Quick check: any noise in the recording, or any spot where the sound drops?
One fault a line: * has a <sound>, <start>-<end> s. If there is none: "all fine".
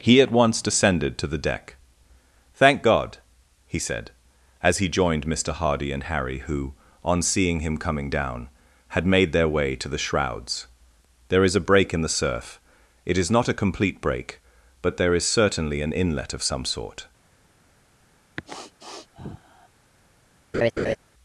* has a sniff, 18.4-19.7 s
* has a laugh, 20.5-21.0 s